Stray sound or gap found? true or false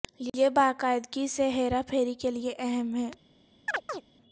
true